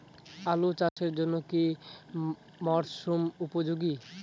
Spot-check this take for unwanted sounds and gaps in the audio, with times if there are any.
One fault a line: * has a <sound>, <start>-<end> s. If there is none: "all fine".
* has a dropout, 0.9-1.0 s